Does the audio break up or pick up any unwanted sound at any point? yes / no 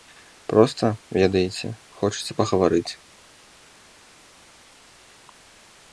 no